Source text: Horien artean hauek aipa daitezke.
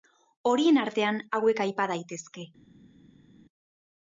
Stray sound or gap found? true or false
false